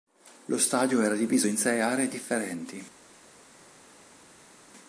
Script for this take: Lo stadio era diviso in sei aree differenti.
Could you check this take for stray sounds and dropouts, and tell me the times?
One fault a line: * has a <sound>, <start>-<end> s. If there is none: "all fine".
all fine